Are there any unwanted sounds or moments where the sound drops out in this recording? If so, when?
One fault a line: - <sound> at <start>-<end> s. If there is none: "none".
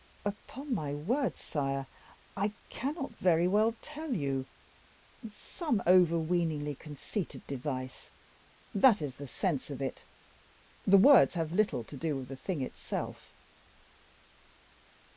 none